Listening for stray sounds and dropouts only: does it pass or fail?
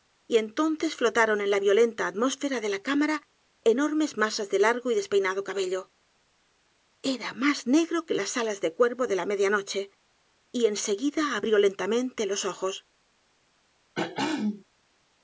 fail